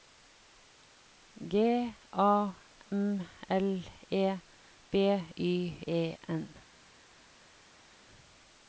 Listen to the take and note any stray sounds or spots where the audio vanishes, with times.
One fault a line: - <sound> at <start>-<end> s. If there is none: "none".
none